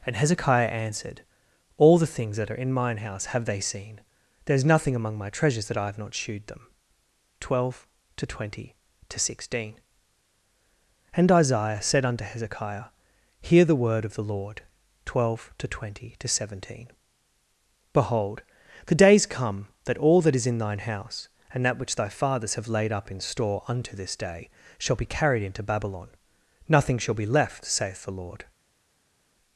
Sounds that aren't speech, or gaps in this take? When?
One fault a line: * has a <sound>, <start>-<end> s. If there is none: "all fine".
all fine